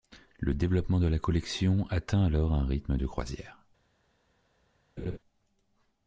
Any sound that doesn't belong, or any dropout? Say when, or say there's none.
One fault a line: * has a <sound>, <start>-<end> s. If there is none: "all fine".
* has a laugh, 5.0-5.2 s